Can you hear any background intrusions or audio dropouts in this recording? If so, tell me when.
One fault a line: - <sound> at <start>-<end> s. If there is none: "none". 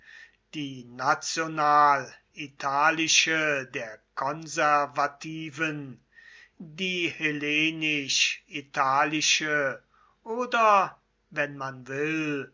none